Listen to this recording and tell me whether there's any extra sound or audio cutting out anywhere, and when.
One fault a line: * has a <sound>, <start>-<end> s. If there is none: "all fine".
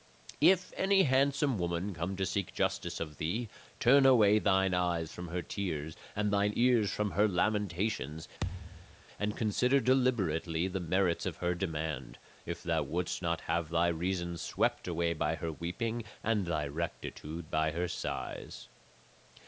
* has a thud, 8.4-9.0 s